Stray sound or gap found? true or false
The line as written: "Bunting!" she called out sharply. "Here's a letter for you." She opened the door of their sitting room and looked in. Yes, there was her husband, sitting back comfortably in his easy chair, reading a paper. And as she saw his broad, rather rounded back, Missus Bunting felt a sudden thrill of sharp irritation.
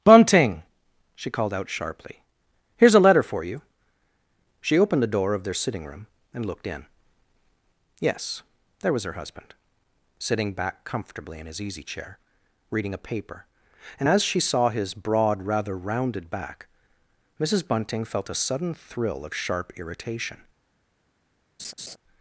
true